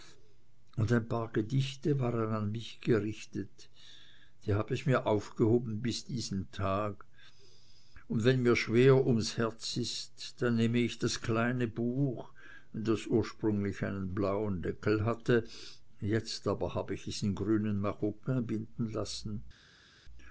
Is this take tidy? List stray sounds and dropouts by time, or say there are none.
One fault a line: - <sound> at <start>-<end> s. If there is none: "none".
none